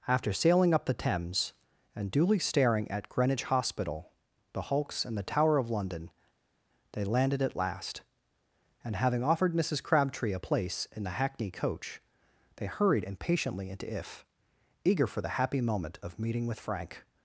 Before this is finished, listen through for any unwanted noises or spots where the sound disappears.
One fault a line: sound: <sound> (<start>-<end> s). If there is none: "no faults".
no faults